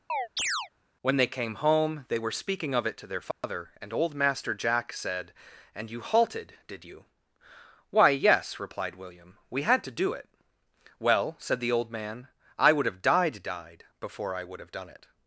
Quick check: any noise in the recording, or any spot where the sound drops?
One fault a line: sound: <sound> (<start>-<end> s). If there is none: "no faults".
sound: chirp (0.1-0.7 s)
sound: dropout (3.3-3.4 s)